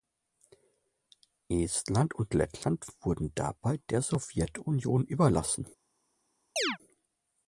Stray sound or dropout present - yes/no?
yes